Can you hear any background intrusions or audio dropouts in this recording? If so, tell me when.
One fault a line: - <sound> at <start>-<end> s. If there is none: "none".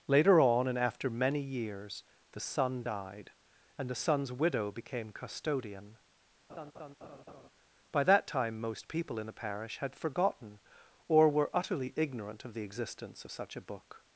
- laugh at 6.5-7.5 s